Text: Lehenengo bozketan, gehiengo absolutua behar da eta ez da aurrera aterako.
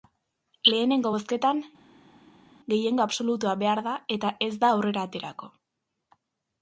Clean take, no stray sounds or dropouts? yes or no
yes